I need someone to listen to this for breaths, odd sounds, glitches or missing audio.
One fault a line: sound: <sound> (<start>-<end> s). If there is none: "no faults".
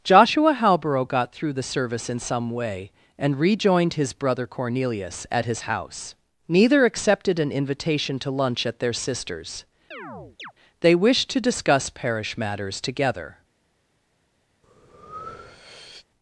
sound: chirp (9.9-10.5 s)
sound: breath (14.6-16.1 s)